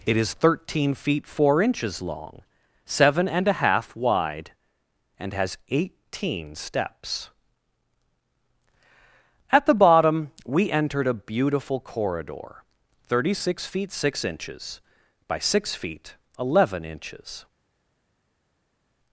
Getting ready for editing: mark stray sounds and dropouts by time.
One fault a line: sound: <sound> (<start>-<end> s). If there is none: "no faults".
no faults